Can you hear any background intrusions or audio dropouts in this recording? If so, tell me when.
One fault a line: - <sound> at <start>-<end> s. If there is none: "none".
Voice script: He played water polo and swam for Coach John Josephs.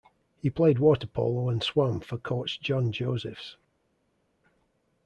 none